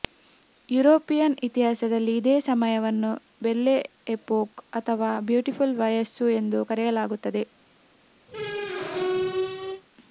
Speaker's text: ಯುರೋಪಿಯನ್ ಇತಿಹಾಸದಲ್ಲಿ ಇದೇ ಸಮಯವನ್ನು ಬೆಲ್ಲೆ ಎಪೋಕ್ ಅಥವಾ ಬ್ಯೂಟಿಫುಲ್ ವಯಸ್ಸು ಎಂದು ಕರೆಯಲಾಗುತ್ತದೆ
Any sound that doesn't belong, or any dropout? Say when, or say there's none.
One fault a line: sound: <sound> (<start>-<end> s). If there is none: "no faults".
sound: squeak (8.3-9.8 s)